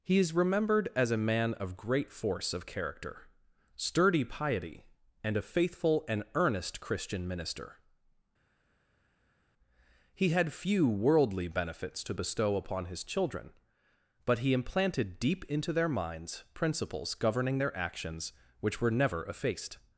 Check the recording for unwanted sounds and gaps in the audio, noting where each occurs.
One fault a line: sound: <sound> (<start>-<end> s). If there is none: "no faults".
no faults